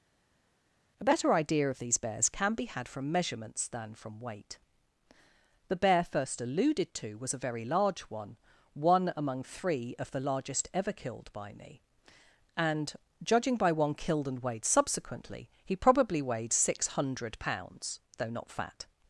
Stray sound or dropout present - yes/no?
no